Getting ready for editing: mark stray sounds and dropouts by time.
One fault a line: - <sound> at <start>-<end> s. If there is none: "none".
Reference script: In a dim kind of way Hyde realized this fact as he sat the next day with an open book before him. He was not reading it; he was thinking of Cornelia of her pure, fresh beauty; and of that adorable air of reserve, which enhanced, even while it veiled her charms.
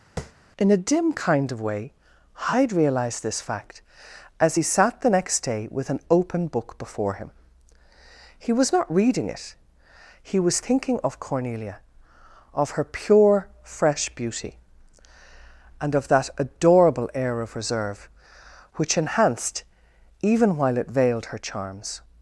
- tap at 0.2-0.3 s